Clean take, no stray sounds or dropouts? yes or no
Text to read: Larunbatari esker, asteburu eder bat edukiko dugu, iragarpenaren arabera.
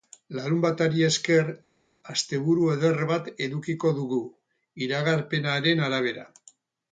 yes